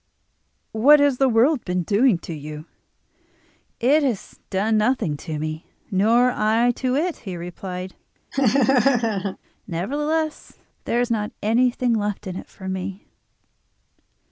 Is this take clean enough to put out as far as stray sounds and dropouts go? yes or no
no